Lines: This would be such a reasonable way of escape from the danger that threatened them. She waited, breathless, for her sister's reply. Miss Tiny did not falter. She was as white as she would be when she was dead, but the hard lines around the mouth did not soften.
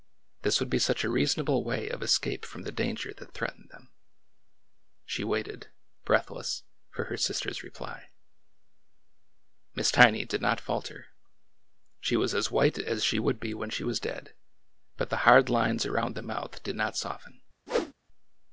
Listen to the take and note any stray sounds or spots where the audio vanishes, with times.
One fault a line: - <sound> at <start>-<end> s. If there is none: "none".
- whoosh at 17.7-17.9 s